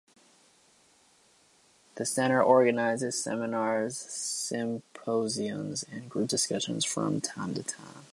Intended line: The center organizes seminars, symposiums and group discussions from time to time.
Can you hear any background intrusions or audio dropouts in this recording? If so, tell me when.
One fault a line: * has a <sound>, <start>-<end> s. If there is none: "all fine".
all fine